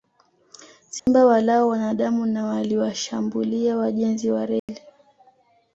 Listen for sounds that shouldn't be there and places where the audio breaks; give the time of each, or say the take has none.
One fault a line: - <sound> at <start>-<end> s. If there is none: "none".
- dropout at 1.0-1.1 s
- dropout at 4.6-4.7 s